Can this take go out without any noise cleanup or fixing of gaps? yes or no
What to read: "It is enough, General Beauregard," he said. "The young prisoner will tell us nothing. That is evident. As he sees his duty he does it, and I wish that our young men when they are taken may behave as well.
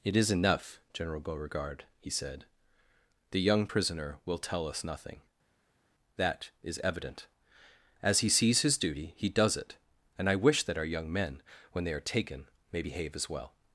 yes